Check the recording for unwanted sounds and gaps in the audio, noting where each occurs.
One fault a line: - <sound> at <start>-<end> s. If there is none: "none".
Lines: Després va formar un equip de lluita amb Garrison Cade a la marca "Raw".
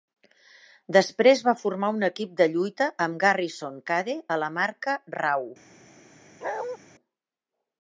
- bark at 6.4-6.8 s